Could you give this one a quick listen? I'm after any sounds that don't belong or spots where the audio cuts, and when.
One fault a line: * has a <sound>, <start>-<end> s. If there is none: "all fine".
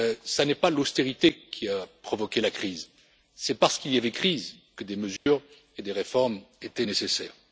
* has a dropout, 5.2-5.3 s